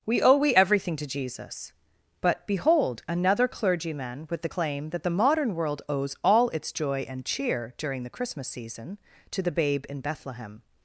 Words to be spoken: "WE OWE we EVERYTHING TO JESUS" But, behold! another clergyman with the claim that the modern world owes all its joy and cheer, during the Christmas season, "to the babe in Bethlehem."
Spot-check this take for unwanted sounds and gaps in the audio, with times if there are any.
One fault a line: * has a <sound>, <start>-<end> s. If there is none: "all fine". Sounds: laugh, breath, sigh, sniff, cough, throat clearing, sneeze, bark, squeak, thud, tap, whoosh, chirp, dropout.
all fine